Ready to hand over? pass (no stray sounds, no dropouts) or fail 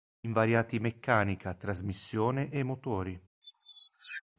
fail